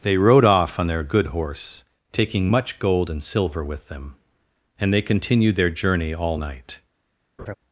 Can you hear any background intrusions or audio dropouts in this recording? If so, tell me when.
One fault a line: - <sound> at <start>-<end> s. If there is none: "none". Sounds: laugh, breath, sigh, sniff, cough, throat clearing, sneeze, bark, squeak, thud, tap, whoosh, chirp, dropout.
- laugh at 7.4-7.5 s